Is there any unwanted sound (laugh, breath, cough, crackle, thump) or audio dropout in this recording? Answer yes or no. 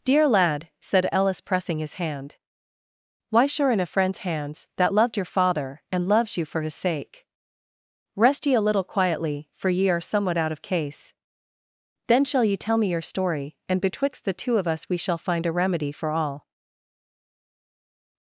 no